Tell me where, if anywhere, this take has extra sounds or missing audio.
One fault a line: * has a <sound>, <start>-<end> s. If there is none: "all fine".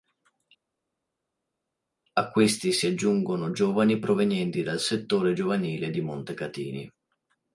all fine